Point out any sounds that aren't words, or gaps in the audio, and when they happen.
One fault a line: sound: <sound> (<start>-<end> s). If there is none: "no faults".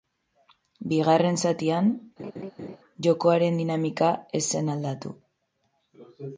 sound: laugh (2.2-2.8 s)